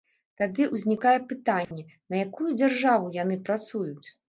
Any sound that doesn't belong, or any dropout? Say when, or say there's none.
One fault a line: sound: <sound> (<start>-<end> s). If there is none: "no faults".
sound: dropout (1.6-1.7 s)